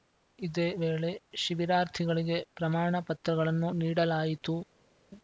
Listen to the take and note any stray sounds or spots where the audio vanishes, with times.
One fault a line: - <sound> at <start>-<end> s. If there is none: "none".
none